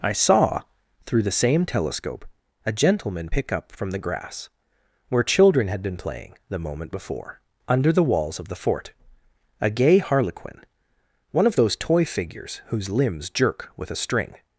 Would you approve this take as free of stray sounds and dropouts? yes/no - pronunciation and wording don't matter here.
yes